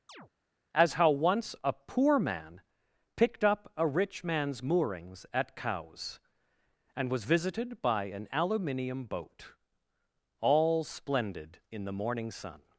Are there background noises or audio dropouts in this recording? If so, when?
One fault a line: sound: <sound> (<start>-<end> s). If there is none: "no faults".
sound: chirp (0.1-0.3 s)